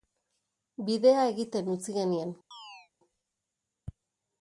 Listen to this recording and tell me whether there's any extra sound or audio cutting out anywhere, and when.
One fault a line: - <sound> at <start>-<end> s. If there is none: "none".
- chirp at 2.5-2.9 s